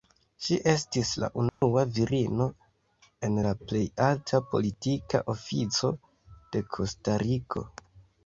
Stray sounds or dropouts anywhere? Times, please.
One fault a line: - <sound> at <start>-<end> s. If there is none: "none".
- dropout at 1.5-1.6 s